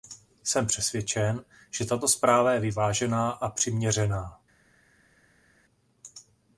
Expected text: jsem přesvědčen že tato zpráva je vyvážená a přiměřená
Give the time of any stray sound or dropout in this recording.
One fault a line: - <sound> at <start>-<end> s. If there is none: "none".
none